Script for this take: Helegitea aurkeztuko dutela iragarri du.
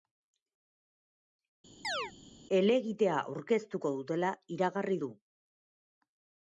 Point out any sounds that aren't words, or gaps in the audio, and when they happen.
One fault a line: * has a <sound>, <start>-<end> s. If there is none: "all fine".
* has a chirp, 1.8-2.1 s